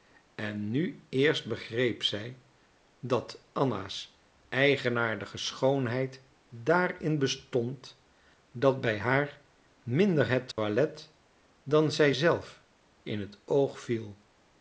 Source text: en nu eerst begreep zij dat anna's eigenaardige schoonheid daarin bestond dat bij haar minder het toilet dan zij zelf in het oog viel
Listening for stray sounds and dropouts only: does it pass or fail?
fail